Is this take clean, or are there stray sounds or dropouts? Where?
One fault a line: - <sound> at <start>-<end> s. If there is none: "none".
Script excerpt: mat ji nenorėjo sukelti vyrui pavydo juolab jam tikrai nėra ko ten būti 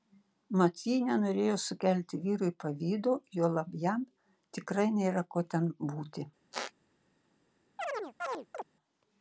- squeak at 6.5-6.7 s
- chirp at 7.8-8.6 s